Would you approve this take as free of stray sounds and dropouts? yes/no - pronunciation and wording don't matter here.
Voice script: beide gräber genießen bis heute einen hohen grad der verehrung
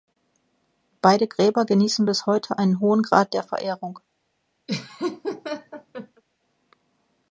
no